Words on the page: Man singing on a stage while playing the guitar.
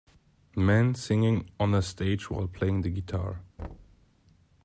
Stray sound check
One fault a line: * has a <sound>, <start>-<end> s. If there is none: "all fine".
* has a thud, 3.6-4.1 s